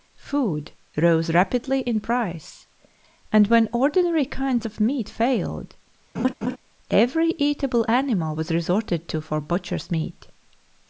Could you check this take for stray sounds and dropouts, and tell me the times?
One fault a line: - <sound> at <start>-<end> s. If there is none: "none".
- laugh at 6.1-6.6 s